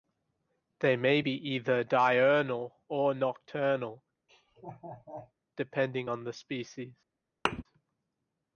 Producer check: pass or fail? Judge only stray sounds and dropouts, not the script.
fail